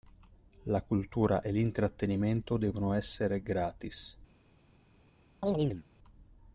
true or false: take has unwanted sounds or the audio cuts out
true